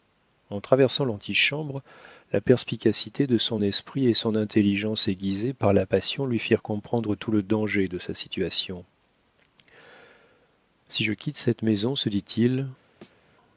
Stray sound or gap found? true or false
true